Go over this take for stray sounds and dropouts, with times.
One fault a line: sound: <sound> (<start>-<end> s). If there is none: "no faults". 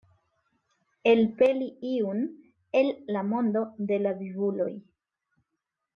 no faults